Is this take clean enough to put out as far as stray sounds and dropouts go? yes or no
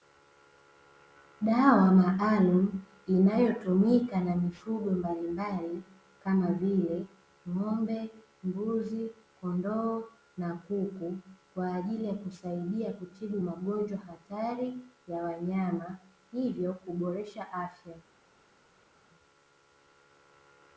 yes